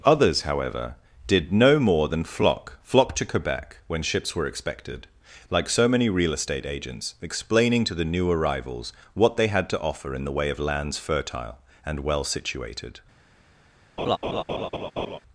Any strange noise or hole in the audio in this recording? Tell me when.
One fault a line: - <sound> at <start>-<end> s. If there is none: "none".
- laugh at 14.0-15.2 s